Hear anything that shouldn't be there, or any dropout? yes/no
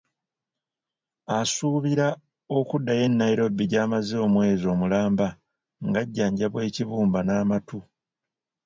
no